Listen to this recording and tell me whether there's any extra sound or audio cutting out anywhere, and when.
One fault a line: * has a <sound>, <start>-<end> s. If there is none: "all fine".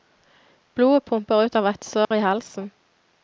* has a dropout, 2.0-2.1 s